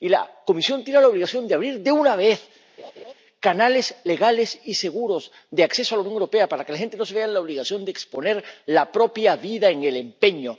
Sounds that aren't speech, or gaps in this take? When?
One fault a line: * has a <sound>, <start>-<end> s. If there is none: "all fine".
* has a laugh, 2.8-3.1 s